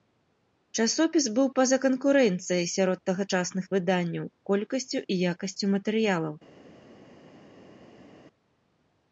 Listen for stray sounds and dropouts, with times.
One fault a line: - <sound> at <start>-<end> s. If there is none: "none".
none